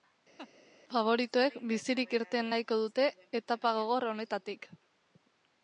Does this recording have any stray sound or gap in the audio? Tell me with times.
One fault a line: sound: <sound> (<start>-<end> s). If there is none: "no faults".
sound: laugh (0.4-0.5 s)